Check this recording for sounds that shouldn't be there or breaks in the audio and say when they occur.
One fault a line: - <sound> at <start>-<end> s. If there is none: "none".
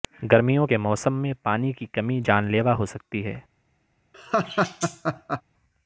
- laugh at 4.1-5.4 s